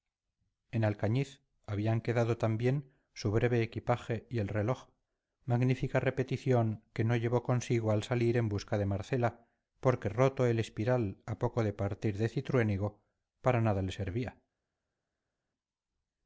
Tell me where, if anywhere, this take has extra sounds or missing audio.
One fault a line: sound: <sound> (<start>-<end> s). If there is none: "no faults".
no faults